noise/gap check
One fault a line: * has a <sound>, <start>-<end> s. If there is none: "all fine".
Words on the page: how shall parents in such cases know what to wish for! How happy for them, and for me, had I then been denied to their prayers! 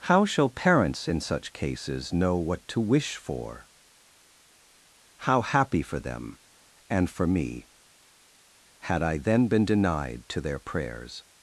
all fine